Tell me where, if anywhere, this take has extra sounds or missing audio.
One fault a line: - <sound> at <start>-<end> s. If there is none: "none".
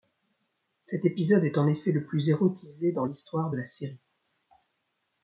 none